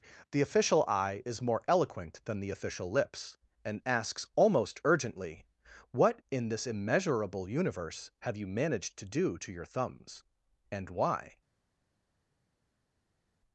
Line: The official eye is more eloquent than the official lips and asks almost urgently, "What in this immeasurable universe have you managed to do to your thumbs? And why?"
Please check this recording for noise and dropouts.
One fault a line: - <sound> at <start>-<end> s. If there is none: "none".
none